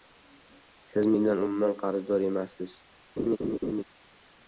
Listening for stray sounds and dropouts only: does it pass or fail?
fail